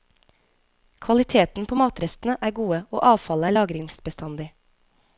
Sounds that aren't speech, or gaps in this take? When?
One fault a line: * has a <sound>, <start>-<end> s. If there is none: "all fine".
all fine